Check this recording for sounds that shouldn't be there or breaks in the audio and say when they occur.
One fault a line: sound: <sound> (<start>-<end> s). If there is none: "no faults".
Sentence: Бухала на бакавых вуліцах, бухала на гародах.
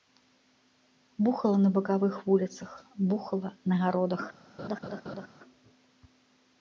sound: laugh (4.6-5.3 s)